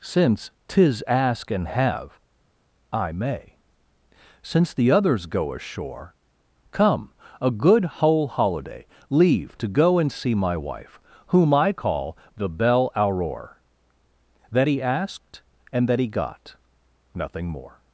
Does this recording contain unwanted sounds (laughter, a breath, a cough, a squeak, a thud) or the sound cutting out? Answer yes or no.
no